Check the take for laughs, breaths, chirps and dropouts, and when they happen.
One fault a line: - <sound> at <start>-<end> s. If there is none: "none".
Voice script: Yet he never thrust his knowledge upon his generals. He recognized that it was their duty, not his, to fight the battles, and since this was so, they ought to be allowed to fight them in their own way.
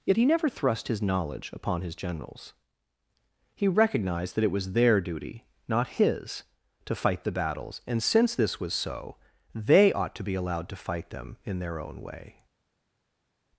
none